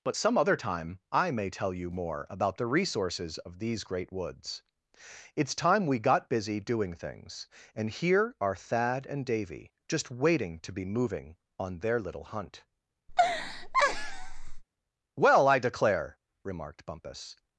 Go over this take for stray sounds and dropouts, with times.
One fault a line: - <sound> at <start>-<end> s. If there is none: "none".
- laugh at 13.1-14.6 s